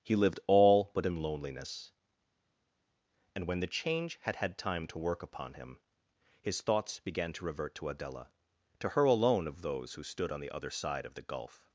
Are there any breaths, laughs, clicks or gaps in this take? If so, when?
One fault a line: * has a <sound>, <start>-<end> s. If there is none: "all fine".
all fine